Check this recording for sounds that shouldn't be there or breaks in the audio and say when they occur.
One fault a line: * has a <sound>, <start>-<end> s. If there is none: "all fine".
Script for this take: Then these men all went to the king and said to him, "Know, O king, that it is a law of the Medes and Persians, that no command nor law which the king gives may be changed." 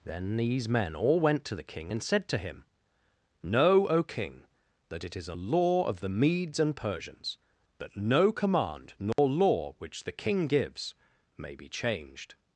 * has a dropout, 9.1-9.2 s